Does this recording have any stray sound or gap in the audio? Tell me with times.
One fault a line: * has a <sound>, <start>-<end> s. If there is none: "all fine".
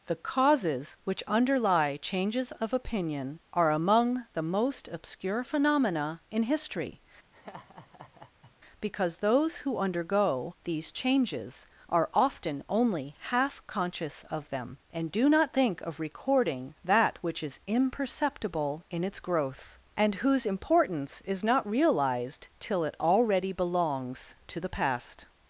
* has a laugh, 7.3-8.5 s